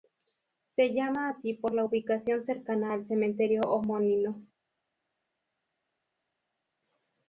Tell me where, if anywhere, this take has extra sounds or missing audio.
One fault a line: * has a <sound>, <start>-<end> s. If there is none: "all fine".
all fine